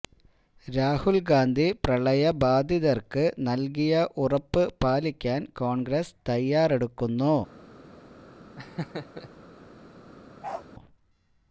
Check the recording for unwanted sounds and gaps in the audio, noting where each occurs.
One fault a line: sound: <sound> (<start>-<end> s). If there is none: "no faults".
sound: laugh (8.6-9.3 s)
sound: bark (10.4-10.7 s)